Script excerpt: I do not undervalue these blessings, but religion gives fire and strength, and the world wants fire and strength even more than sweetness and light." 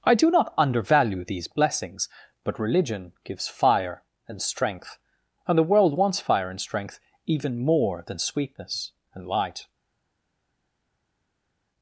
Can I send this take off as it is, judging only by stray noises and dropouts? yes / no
yes